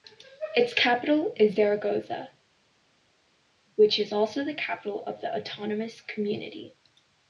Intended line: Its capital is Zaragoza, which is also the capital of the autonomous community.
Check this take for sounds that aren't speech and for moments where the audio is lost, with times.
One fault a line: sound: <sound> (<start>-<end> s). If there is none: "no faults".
no faults